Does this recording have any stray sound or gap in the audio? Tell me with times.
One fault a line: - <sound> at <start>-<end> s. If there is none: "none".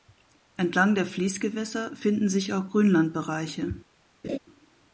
- laugh at 4.2-4.4 s